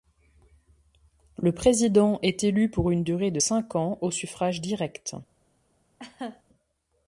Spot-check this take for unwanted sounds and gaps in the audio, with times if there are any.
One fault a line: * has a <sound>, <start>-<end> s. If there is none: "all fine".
* has a laugh, 6.0-6.4 s